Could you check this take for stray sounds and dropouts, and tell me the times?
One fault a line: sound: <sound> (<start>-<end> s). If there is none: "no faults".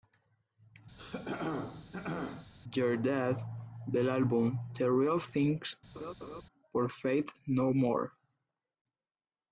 sound: throat clearing (1.0-2.5 s)
sound: laugh (5.9-6.4 s)